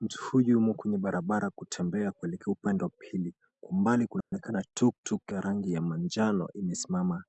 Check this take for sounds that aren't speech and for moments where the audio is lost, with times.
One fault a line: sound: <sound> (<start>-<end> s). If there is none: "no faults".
sound: dropout (4.2-4.3 s)